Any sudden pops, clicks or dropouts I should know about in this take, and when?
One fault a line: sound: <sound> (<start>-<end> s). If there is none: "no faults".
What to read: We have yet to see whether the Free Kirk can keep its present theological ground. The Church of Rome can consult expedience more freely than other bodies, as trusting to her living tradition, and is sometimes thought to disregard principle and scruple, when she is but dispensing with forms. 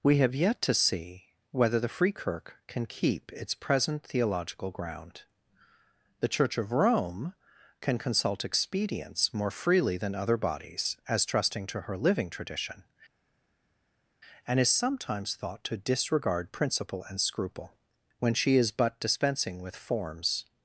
no faults